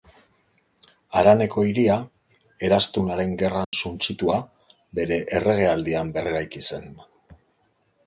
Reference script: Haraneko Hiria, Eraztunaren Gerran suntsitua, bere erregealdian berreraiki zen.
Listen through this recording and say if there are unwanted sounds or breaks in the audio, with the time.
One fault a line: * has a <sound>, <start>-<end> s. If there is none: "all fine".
* has a dropout, 3.6-3.7 s